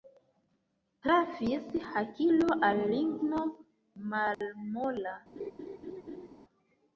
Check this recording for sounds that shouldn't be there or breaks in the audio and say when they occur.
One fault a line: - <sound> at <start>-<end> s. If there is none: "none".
- dropout at 4.3-4.4 s
- laugh at 5.4-6.3 s